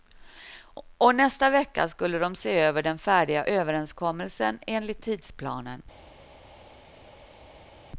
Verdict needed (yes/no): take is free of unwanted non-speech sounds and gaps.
yes